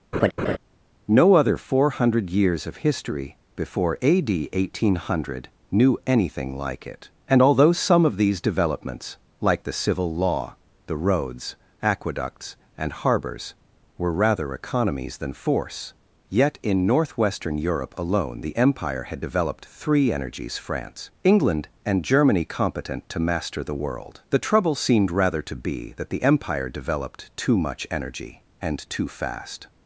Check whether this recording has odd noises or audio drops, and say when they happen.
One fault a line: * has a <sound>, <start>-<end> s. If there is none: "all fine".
* has a laugh, 0.1-0.6 s